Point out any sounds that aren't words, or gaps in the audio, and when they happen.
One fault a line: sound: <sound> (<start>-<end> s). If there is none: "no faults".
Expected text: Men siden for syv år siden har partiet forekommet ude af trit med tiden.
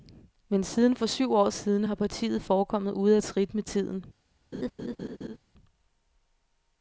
sound: laugh (4.5-5.4 s)